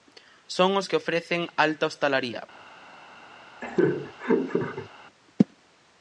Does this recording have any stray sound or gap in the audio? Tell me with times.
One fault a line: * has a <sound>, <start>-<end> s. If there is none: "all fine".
* has a laugh, 3.6-4.9 s